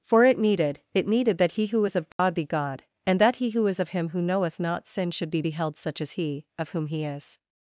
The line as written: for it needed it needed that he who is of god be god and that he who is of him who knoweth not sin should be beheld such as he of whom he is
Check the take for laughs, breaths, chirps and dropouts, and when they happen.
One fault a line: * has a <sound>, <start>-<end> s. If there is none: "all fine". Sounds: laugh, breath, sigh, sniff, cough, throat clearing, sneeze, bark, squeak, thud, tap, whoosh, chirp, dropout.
* has a dropout, 2.1-2.2 s